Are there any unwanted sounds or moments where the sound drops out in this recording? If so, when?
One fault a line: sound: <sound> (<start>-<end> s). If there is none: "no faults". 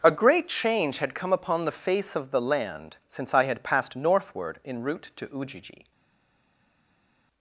no faults